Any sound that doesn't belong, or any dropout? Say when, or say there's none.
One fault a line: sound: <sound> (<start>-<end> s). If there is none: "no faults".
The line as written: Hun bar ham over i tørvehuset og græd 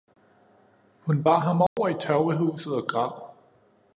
sound: dropout (1.7-1.8 s)